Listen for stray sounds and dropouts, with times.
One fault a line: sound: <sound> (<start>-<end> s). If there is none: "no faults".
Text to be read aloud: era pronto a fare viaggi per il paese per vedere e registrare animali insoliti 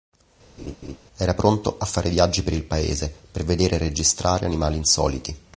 sound: laugh (0.6-1.0 s)